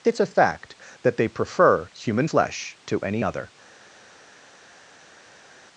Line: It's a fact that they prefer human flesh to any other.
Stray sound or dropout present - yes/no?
no